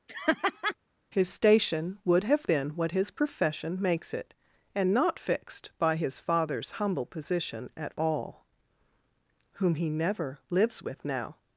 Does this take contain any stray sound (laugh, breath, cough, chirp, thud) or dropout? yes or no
yes